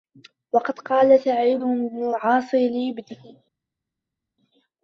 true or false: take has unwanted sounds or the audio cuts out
false